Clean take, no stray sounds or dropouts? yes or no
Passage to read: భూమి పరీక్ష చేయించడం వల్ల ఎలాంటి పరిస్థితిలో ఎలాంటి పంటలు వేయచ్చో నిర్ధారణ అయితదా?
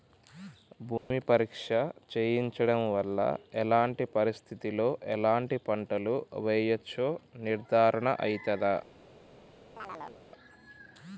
no